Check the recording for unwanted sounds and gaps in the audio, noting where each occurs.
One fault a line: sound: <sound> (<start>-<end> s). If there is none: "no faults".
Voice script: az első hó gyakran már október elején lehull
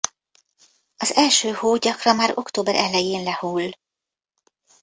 no faults